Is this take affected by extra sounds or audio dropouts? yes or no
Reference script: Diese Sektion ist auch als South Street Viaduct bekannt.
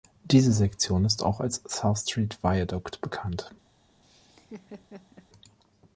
yes